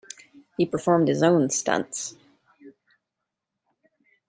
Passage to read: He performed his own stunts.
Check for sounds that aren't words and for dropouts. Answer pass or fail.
pass